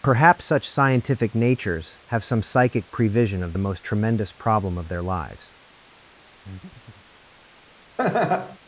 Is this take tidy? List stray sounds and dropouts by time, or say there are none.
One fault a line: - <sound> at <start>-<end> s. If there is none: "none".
- breath at 6.4-7.1 s
- laugh at 8.0-8.6 s